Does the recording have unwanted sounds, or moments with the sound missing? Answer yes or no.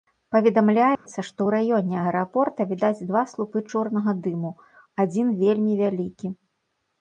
yes